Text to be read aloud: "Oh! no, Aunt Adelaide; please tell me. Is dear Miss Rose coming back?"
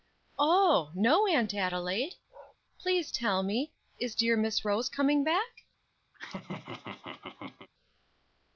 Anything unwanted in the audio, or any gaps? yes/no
yes